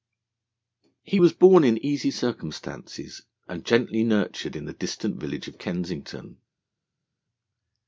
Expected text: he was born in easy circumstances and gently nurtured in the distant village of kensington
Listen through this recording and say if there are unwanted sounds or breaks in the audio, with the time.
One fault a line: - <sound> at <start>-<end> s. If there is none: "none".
none